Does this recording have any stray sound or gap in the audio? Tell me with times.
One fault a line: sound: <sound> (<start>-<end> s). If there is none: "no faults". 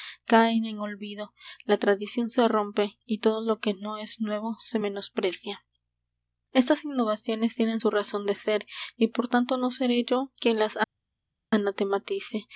no faults